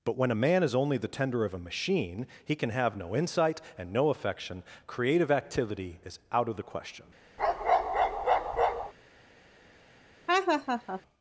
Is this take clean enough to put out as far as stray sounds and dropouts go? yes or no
no